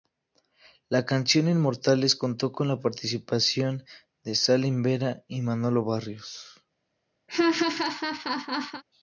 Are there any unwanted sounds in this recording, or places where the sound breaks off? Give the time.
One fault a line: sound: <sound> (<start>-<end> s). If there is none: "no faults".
sound: laugh (7.3-8.8 s)